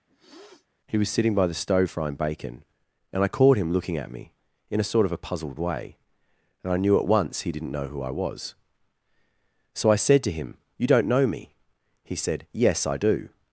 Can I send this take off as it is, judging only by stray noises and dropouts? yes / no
no